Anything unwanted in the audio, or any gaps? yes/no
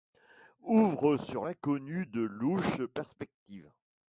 no